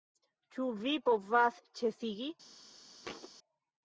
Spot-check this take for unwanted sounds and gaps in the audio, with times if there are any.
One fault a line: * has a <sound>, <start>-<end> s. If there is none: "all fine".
* has a thud, 3.0-3.3 s